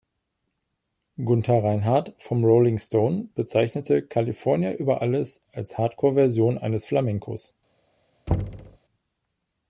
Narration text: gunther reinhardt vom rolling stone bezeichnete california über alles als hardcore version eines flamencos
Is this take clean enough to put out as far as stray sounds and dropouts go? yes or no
no